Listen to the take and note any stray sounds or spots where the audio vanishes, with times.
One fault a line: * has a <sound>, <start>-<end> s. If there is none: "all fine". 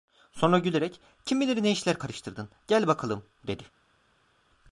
all fine